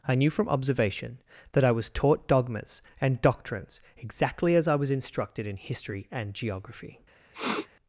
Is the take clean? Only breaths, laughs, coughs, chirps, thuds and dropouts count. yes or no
no